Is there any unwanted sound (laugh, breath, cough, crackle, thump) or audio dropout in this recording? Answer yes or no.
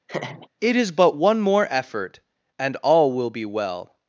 yes